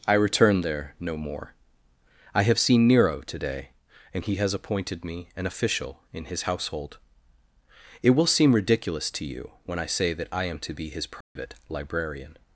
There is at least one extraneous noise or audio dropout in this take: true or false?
true